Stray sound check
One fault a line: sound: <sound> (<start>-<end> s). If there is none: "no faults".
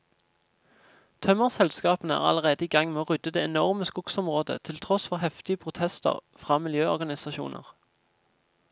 no faults